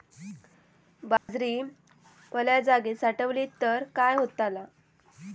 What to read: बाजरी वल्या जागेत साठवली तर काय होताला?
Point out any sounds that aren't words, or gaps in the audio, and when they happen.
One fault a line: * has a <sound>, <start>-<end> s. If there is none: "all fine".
* has a dropout, 1.2-1.3 s